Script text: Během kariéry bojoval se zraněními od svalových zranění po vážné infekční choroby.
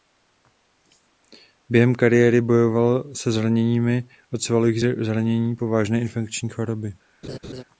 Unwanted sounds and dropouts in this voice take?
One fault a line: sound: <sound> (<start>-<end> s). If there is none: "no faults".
sound: laugh (7.2-7.6 s)